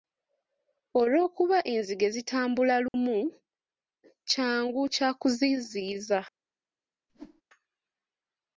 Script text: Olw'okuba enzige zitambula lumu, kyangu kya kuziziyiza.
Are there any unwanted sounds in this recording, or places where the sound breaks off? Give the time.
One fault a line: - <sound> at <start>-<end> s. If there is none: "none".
- dropout at 2.9-2.9 s
- whoosh at 7.1-7.4 s